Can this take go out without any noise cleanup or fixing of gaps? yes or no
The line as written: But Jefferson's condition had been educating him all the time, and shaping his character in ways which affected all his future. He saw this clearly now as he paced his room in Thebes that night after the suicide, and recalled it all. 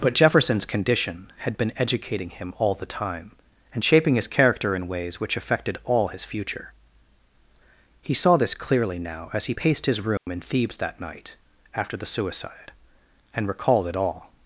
no